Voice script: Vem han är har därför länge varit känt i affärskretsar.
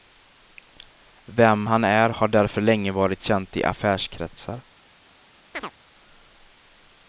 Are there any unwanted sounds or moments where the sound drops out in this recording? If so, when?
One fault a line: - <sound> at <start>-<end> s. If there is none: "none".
- chirp at 5.5-5.7 s